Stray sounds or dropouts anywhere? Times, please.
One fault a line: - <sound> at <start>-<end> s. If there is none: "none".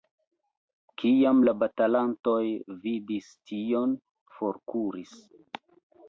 none